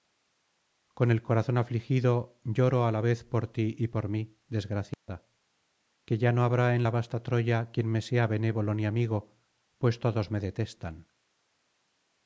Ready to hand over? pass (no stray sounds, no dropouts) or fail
fail